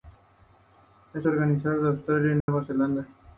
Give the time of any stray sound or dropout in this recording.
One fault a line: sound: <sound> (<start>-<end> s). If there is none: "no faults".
sound: dropout (2.4-2.5 s)